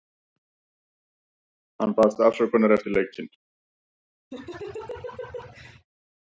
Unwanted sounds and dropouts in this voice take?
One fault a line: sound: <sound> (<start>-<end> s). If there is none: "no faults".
sound: laugh (4.3-5.9 s)